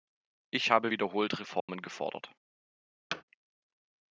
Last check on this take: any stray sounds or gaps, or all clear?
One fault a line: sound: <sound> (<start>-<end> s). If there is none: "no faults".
sound: dropout (1.6-1.7 s)
sound: thud (3.1-3.2 s)